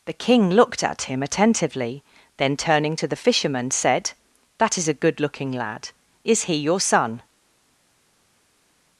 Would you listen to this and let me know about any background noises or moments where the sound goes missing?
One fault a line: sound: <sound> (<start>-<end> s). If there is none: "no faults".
no faults